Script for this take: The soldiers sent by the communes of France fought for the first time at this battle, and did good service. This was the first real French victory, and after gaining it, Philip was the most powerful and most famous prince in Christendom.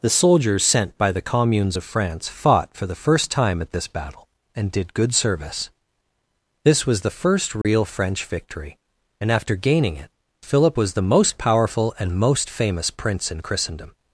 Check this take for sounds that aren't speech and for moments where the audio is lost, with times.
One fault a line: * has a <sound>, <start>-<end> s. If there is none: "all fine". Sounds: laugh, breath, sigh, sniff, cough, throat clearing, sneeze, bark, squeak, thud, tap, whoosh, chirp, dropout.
* has a dropout, 7.6-7.6 s